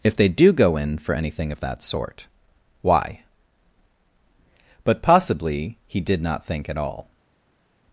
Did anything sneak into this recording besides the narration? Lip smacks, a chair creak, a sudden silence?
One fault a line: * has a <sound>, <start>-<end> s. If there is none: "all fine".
all fine